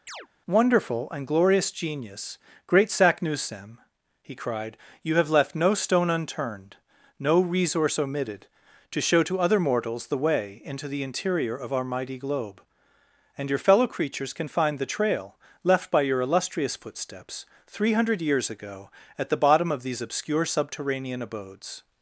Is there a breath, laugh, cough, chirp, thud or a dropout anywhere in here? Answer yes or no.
yes